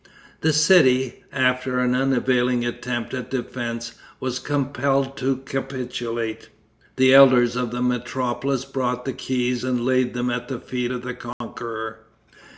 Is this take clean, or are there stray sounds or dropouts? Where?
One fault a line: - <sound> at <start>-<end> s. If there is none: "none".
- dropout at 11.3-11.4 s